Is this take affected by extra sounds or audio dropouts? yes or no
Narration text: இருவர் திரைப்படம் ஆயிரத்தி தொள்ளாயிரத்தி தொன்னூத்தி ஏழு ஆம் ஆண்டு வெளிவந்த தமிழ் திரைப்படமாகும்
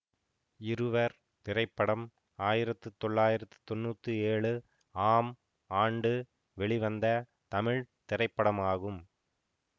no